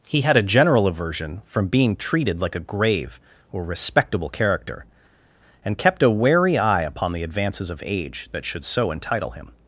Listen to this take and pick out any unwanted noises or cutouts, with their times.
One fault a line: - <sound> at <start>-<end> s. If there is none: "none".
none